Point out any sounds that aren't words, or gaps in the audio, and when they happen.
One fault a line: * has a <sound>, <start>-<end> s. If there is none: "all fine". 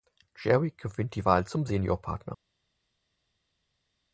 all fine